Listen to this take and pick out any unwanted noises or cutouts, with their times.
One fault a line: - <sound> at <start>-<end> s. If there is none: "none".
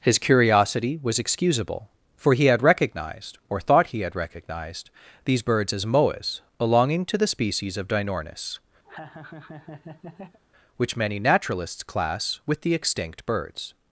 - laugh at 8.8-10.4 s